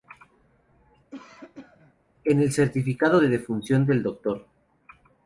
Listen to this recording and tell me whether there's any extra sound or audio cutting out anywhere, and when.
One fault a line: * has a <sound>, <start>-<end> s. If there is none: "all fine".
* has a cough, 1.1-1.9 s